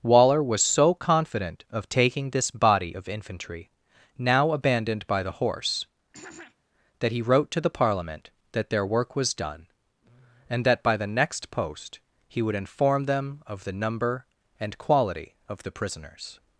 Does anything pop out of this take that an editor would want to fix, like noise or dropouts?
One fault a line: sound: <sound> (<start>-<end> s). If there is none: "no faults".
sound: throat clearing (6.1-6.6 s)